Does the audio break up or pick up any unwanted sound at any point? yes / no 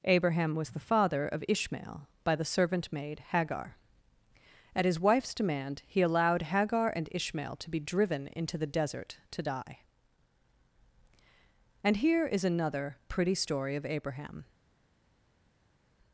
no